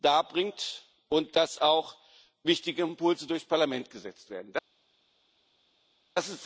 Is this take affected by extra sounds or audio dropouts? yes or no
no